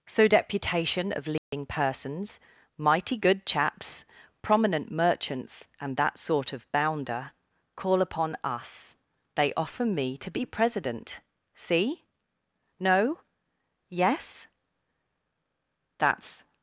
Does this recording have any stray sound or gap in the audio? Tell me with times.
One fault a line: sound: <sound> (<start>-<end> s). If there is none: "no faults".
sound: dropout (1.4-1.5 s)